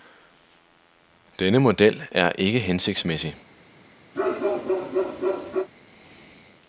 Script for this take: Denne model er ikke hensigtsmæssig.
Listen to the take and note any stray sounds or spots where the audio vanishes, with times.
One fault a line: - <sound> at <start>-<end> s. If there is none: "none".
- bark at 4.1-5.7 s